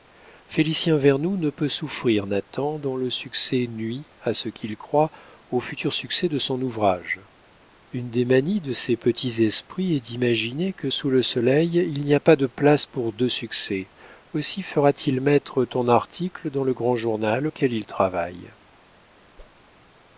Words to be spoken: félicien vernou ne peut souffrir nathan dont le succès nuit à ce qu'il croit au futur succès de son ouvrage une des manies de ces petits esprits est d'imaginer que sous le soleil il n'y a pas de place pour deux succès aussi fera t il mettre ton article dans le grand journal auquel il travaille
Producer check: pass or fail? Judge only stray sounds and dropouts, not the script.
fail